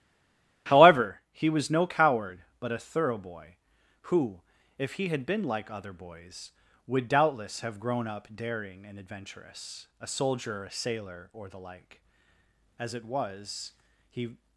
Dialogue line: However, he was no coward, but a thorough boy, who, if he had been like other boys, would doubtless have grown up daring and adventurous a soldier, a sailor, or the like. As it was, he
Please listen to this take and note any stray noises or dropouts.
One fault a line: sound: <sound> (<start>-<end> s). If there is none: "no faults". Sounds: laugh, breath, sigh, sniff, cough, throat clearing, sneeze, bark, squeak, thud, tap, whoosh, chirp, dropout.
no faults